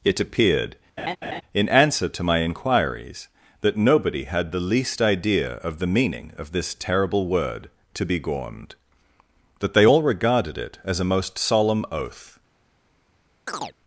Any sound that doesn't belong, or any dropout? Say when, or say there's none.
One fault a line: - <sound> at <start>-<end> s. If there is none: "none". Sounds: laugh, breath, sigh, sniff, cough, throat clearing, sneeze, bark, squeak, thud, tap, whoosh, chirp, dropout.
- laugh at 1.0-1.4 s
- chirp at 13.5-13.8 s